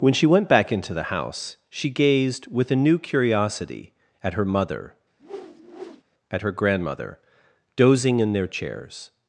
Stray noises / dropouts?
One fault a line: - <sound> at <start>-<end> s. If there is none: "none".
- whoosh at 5.2-6.0 s